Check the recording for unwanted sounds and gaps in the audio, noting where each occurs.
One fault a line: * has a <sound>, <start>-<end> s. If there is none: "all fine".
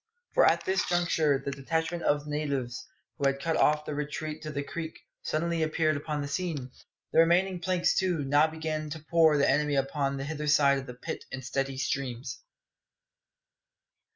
all fine